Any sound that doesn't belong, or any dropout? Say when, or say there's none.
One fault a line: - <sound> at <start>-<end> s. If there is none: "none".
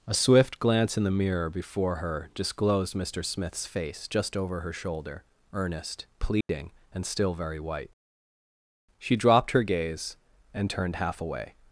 - dropout at 6.4-6.5 s